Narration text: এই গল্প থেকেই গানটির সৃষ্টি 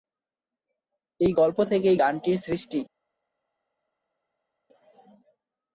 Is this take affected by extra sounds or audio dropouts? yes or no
no